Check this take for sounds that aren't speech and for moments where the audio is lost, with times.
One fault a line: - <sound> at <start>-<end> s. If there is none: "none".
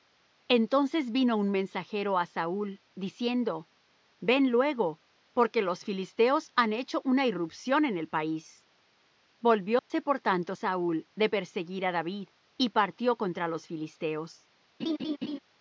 - dropout at 9.8-9.9 s
- laugh at 14.8-15.4 s